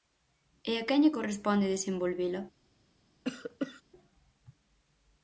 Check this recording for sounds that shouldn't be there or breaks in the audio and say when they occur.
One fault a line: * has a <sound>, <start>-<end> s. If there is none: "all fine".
* has a cough, 3.2-3.8 s